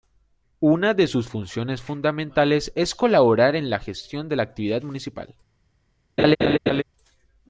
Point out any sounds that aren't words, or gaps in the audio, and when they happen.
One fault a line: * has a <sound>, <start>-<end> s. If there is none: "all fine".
* has a laugh, 6.2-6.8 s